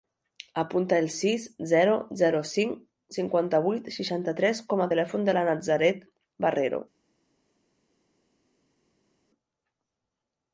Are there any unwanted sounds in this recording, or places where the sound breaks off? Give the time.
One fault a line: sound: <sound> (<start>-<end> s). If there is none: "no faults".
no faults